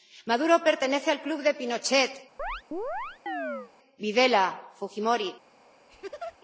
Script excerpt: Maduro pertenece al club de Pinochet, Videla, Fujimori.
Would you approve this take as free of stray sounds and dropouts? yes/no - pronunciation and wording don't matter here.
no